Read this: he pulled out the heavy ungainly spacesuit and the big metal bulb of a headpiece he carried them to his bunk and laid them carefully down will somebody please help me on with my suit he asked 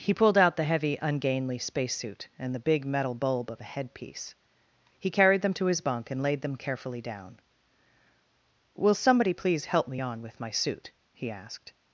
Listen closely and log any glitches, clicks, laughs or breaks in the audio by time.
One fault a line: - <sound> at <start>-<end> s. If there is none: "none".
none